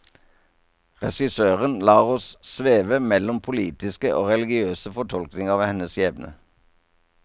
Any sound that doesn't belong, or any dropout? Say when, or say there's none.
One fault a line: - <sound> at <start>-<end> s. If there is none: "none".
none